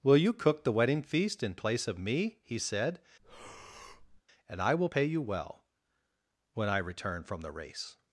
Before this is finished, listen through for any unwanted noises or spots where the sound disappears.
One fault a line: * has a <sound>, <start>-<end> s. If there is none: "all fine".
* has a breath, 3.2-4.2 s